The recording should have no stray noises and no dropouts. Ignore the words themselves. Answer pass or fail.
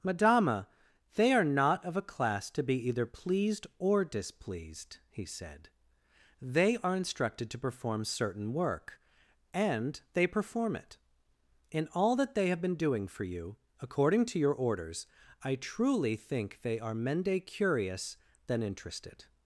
pass